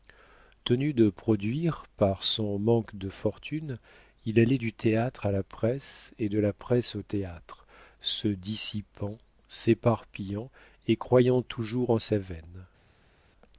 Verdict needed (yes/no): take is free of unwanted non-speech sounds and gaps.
yes